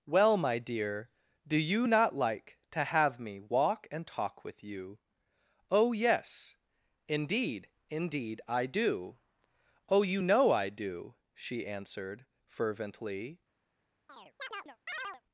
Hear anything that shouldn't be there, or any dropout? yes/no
yes